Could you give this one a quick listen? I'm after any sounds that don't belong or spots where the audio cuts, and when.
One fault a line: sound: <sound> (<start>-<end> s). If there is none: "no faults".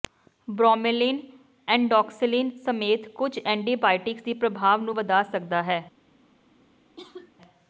sound: cough (7.0-7.3 s)